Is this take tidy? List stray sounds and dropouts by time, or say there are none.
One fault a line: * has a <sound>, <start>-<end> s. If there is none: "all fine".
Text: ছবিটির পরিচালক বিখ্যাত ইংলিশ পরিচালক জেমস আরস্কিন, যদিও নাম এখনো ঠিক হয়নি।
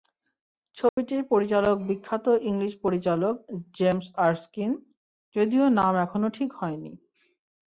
* has a dropout, 0.9-1.0 s